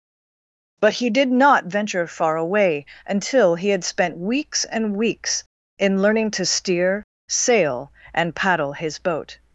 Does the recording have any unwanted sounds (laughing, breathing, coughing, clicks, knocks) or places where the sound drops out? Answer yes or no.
no